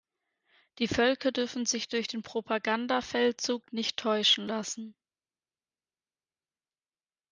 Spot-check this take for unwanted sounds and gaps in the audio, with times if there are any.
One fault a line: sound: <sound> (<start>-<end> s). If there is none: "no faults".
no faults